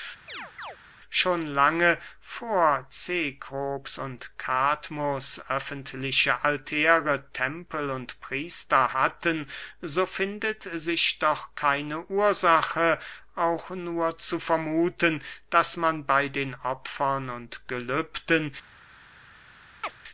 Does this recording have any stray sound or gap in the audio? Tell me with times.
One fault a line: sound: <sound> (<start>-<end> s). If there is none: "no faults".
sound: chirp (0.3-0.8 s)
sound: chirp (19.8-20.0 s)